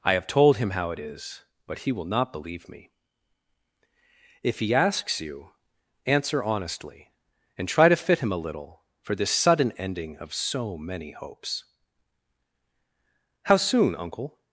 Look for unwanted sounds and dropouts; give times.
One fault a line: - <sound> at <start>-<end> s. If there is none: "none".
none